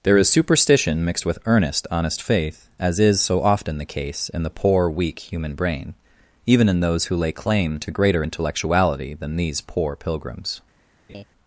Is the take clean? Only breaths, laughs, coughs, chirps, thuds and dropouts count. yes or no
no